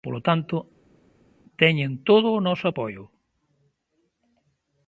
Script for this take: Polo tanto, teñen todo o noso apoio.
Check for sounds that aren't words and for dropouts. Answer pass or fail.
pass